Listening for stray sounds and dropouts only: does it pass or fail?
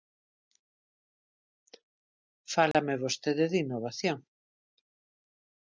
fail